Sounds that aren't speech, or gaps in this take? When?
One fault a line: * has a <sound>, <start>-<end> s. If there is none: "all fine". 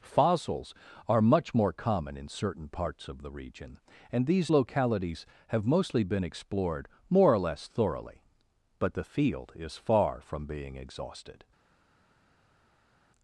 all fine